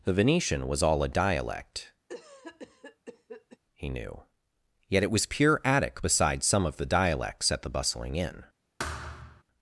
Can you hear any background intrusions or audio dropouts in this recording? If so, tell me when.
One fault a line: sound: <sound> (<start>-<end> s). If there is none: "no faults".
sound: cough (2.1-3.6 s)
sound: thud (8.8-9.4 s)